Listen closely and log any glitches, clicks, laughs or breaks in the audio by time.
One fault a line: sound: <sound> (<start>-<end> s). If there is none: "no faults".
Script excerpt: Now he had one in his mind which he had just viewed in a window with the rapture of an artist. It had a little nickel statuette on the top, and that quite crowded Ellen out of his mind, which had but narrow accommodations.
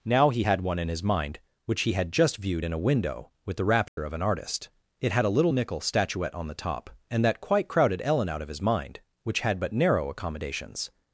sound: dropout (3.9-4.0 s)